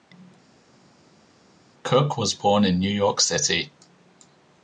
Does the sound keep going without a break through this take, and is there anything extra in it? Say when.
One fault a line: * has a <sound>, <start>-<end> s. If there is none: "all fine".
all fine